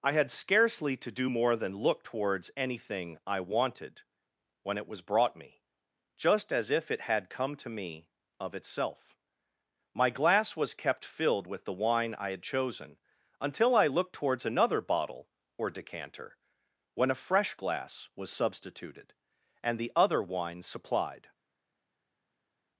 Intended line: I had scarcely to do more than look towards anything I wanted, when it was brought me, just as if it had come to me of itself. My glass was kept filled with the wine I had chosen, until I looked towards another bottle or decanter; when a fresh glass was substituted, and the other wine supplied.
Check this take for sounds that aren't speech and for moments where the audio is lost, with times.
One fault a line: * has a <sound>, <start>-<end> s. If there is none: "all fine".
all fine